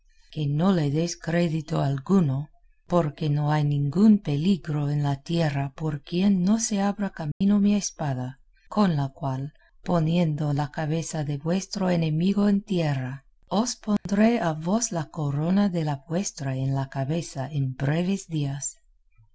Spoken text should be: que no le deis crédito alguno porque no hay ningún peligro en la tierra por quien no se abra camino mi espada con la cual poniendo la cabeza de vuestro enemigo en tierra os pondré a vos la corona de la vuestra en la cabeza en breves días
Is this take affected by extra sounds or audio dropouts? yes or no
yes